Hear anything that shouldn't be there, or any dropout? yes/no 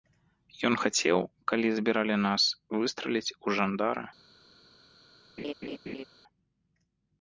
yes